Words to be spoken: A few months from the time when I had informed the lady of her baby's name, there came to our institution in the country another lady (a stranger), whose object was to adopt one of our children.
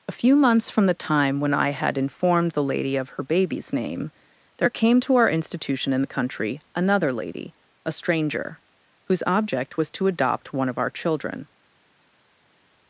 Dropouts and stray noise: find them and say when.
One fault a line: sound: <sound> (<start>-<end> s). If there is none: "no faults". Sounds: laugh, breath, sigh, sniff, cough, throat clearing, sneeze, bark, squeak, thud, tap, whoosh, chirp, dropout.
no faults